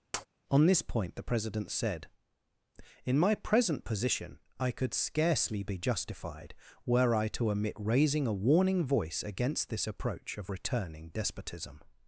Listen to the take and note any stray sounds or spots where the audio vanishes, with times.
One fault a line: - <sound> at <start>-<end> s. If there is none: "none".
- tap at 0.1-0.3 s